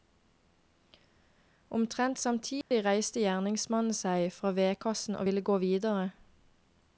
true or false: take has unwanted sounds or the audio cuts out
true